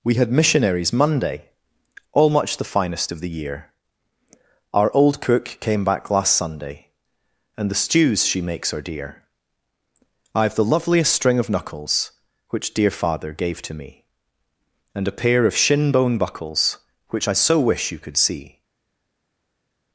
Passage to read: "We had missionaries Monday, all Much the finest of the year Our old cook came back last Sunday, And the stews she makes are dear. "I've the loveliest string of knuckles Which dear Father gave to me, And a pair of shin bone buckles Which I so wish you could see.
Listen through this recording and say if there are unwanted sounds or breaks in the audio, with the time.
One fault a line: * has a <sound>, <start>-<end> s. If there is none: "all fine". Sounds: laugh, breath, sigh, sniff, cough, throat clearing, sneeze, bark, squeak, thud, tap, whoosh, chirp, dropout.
all fine